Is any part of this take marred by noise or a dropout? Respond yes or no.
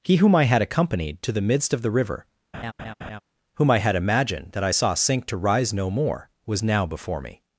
yes